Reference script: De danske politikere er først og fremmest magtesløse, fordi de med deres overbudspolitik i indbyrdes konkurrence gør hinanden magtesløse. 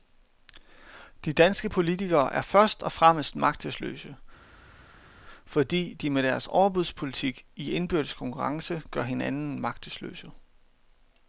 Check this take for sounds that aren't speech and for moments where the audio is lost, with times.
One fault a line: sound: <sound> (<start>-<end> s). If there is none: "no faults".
no faults